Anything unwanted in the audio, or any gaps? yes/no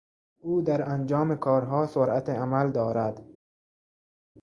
no